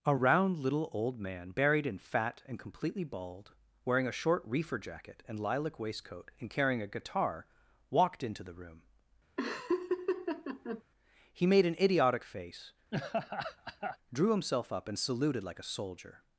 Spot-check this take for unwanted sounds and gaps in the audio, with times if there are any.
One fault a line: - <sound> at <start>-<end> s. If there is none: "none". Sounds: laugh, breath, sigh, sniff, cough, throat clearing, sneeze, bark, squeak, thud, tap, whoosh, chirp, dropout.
- laugh at 9.4-10.8 s
- laugh at 12.9-14.0 s